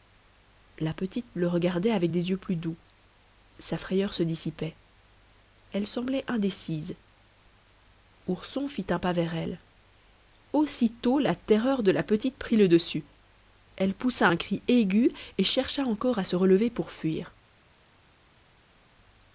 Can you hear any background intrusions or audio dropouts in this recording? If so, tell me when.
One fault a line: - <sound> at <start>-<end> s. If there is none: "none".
none